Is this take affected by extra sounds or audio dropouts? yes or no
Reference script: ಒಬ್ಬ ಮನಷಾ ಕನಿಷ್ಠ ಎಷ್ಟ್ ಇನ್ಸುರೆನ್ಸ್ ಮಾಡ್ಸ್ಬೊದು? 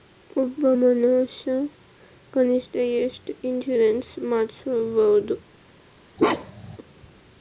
yes